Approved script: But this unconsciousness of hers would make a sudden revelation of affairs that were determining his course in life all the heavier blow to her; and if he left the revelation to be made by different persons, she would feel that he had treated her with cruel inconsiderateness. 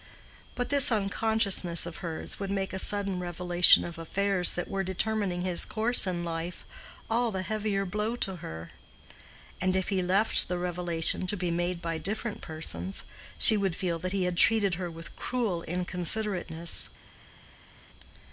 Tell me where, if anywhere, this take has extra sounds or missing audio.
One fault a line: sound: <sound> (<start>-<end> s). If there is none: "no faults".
no faults